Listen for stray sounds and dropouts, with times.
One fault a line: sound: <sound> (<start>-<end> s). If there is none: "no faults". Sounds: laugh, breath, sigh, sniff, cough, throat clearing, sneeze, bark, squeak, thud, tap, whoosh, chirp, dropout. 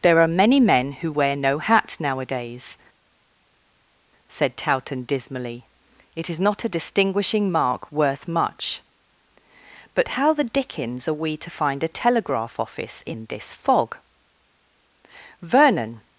no faults